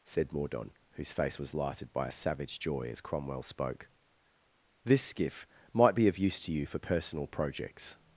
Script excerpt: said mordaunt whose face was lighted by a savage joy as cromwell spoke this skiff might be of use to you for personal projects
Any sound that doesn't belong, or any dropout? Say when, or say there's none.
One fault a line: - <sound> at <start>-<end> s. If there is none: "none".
none